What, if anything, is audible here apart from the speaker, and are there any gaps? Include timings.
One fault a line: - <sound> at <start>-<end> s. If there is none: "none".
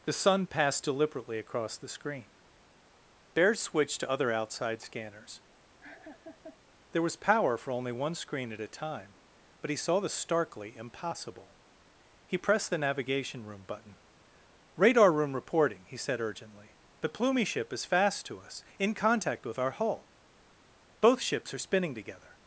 - laugh at 5.8-6.6 s